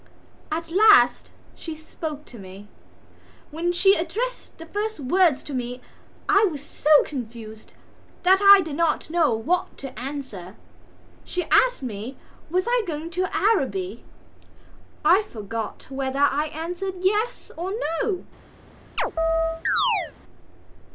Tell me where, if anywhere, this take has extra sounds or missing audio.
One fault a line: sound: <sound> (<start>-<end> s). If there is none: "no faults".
sound: chirp (19.0-20.1 s)